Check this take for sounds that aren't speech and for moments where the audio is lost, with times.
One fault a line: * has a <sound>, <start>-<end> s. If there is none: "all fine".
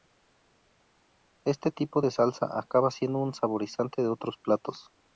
all fine